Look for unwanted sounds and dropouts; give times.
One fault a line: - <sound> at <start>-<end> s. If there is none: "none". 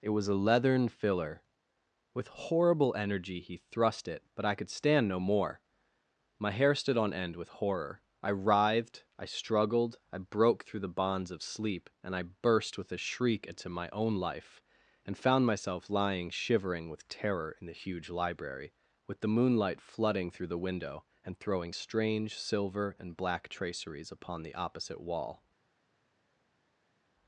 none